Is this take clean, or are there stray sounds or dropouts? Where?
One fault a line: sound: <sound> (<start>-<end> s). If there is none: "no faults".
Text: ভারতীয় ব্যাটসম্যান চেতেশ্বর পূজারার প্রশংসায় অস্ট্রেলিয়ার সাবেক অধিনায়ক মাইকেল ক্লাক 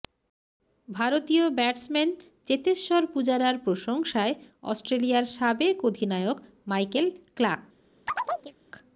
sound: chirp (8.1-8.5 s)